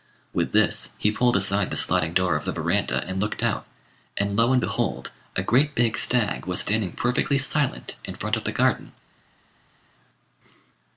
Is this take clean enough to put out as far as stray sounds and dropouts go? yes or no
yes